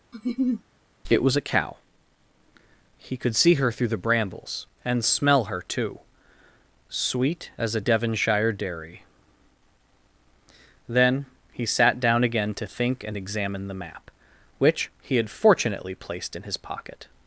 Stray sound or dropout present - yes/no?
yes